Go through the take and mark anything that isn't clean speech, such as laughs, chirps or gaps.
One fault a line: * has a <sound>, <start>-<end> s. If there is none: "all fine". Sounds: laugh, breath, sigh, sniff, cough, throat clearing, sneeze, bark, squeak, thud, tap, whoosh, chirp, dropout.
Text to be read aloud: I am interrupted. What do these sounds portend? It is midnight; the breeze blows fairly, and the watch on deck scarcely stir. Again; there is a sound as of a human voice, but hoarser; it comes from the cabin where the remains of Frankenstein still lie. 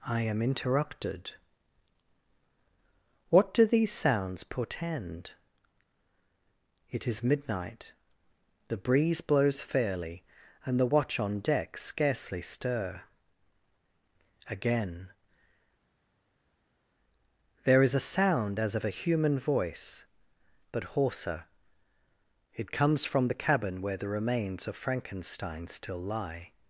all fine